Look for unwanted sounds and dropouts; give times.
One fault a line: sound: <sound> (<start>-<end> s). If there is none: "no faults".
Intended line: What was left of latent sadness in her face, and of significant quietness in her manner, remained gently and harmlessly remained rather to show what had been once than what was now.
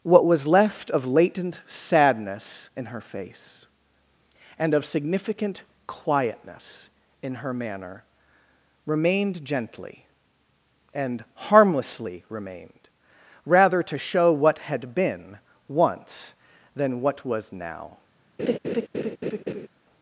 sound: laugh (18.4-19.7 s)